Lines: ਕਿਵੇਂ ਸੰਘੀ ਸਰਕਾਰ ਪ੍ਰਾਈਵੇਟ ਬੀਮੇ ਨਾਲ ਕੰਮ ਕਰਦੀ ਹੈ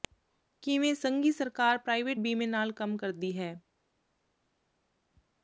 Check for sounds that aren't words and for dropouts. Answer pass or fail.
pass